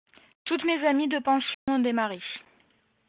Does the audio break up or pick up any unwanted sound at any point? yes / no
yes